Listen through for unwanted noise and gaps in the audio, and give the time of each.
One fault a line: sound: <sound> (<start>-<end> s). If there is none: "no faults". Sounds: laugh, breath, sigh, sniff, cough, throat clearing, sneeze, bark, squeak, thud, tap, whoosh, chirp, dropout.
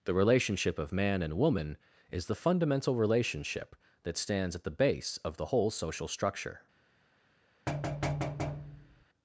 sound: thud (7.7-9.0 s)